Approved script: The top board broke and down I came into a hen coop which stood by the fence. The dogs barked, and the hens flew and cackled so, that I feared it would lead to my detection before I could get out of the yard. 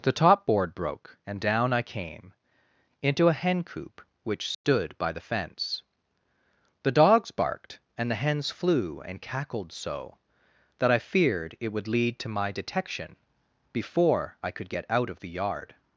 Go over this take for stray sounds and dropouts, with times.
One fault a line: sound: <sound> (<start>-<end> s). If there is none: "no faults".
sound: dropout (4.5-4.6 s)